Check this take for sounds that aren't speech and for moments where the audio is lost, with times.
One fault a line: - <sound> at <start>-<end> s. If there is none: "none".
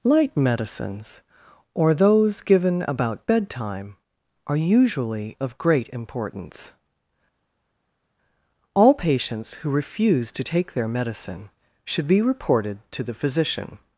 none